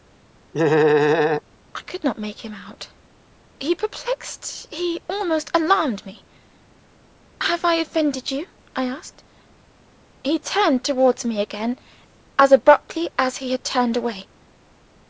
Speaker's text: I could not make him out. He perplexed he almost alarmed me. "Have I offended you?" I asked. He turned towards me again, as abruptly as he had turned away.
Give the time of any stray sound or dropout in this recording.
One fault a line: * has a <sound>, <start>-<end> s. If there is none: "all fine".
* has a laugh, 0.5-1.4 s